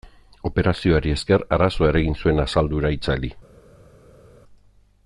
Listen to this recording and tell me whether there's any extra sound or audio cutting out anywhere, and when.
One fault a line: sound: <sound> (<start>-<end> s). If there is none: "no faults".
no faults